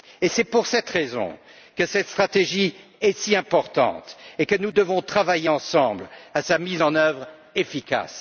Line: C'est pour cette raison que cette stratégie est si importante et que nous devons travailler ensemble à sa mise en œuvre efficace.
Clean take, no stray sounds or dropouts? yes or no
yes